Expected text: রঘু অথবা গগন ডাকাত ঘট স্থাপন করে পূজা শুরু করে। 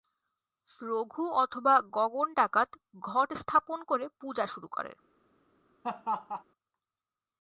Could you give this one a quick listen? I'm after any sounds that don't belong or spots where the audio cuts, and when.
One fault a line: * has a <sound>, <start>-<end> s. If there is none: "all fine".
* has a laugh, 5.8-6.4 s